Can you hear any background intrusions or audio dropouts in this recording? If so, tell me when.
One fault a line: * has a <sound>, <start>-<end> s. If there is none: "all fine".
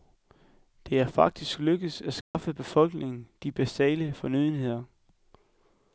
* has a dropout, 2.2-2.3 s